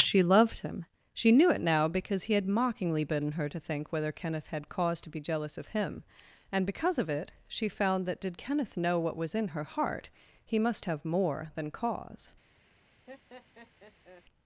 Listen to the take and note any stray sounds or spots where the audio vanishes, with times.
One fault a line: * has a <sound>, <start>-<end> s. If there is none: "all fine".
* has a laugh, 13.1-14.2 s